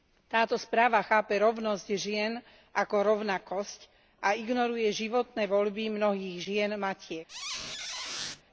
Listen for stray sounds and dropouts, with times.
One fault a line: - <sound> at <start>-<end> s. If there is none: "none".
- squeak at 7.3-8.4 s